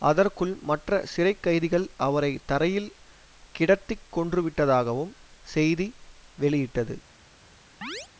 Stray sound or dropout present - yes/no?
yes